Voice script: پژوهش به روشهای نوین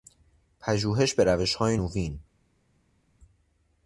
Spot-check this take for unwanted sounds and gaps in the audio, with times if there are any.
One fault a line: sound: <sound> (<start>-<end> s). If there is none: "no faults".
no faults